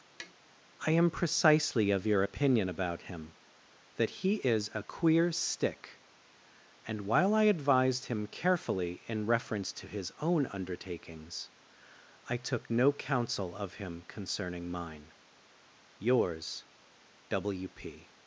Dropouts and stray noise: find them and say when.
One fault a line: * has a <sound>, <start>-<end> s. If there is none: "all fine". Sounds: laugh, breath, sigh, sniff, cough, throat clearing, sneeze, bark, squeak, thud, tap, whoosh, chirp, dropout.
* has a tap, 0.2-0.3 s